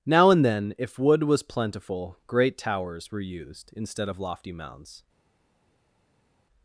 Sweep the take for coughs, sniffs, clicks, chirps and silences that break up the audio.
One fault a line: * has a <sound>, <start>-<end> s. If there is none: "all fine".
all fine